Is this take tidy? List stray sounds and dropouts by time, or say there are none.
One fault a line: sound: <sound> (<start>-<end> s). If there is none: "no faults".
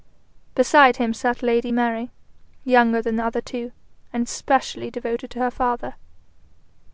no faults